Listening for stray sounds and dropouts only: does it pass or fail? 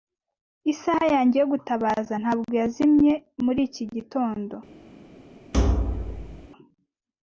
fail